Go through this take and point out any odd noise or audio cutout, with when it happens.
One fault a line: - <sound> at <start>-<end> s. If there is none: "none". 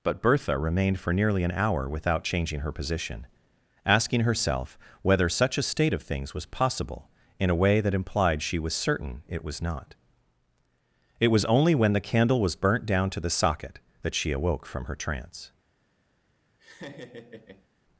- laugh at 16.6-17.7 s